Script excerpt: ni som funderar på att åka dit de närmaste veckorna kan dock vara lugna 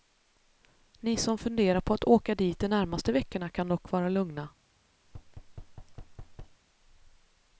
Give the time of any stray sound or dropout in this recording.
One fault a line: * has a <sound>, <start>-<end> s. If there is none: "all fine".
* has a thud, 5.0-6.6 s